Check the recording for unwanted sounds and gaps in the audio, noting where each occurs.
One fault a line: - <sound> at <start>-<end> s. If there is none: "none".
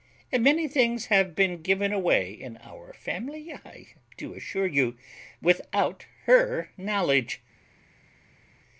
none